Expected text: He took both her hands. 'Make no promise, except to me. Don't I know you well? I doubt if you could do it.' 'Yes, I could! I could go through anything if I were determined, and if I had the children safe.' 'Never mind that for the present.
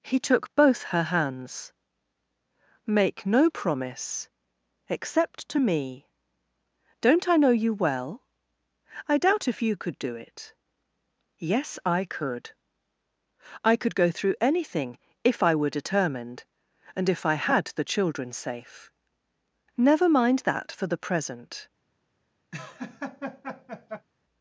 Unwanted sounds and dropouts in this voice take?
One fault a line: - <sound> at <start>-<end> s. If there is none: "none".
- laugh at 22.5-24.1 s